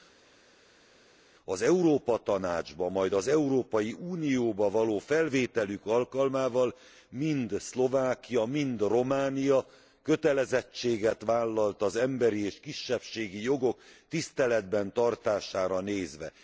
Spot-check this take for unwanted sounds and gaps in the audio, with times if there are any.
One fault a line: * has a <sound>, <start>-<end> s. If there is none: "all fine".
all fine